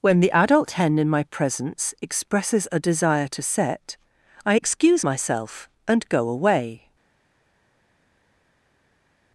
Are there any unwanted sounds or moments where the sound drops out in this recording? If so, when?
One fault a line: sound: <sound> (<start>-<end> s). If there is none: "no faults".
no faults